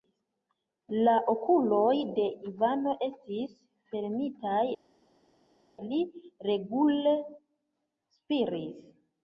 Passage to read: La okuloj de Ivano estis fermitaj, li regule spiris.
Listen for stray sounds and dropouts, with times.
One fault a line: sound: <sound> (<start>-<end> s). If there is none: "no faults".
no faults